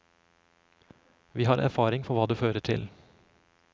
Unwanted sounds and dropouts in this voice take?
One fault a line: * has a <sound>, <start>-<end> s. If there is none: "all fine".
all fine